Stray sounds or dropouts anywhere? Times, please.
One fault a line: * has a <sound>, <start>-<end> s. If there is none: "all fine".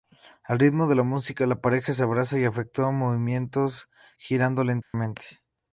* has a dropout, 4.8-4.9 s